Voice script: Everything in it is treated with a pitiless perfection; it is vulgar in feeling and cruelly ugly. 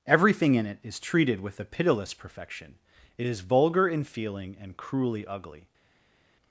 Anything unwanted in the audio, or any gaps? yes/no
no